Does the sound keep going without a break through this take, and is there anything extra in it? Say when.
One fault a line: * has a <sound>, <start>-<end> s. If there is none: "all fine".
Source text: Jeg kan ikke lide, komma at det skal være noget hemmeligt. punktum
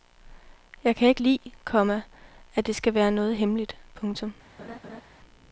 * has a laugh, 4.6-5.0 s